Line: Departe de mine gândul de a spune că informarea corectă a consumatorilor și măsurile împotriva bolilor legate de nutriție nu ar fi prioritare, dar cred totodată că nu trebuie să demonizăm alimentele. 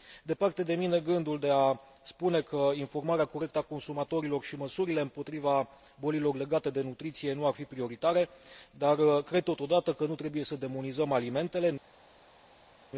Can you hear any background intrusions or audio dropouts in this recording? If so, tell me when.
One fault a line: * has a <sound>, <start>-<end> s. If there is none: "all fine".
all fine